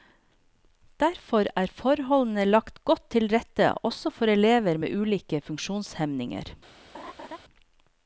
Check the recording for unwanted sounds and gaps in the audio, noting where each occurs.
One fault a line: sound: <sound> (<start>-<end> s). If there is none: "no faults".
sound: laugh (6.9-7.4 s)